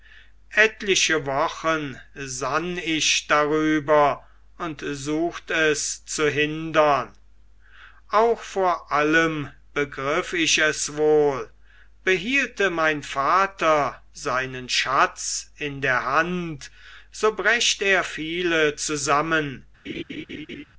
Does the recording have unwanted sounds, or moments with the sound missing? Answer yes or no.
yes